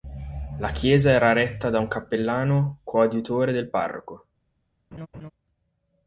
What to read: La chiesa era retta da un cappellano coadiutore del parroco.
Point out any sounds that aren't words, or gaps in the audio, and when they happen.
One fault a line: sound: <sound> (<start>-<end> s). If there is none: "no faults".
sound: laugh (4.9-5.3 s)